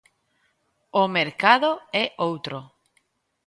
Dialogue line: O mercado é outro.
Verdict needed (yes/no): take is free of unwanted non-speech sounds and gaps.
yes